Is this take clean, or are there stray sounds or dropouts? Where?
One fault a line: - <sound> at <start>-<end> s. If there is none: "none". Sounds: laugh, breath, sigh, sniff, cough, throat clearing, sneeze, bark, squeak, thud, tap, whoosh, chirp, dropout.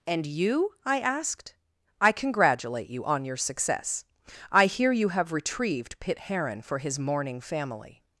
none